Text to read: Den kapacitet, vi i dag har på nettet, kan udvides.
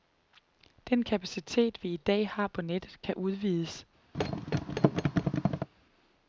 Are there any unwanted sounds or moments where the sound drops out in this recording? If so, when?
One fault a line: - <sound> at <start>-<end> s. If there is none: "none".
- thud at 4.1-5.7 s